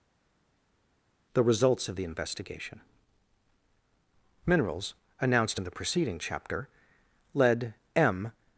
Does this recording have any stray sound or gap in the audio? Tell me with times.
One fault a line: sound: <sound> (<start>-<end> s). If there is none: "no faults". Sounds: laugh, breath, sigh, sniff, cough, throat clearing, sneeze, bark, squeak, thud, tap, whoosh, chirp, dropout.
no faults